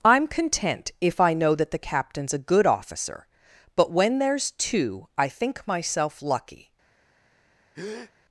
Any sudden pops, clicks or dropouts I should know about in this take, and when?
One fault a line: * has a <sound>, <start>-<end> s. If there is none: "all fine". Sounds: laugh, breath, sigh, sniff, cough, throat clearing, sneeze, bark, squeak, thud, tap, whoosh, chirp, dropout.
* has a breath, 7.7-8.1 s